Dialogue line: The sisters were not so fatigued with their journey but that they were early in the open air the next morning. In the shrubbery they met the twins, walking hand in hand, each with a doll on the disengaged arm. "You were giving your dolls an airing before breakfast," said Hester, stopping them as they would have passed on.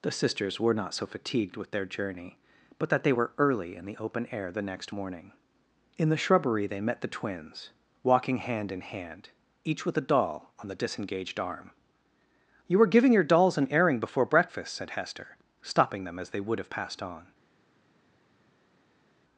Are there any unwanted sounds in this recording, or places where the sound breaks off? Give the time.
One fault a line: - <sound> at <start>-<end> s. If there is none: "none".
none